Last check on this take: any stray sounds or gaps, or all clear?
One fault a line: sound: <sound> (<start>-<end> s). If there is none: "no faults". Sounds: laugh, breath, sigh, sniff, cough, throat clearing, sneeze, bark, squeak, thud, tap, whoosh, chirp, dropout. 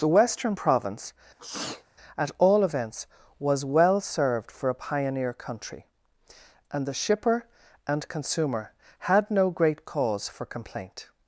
sound: sneeze (1.4-1.8 s)